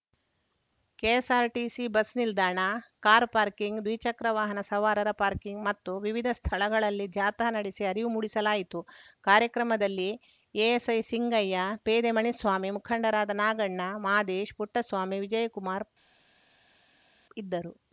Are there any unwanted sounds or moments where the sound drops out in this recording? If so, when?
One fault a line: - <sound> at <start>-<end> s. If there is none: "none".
none